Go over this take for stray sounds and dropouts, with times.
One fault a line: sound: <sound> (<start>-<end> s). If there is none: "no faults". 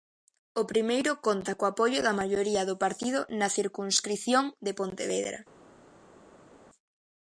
no faults